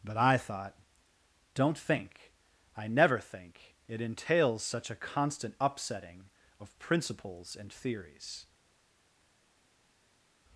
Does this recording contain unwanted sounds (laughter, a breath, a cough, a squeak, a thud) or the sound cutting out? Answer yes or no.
no